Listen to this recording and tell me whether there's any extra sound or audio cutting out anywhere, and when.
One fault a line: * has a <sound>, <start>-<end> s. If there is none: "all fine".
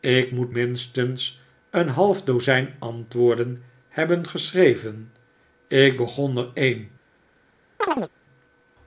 * has a chirp, 7.8-8.1 s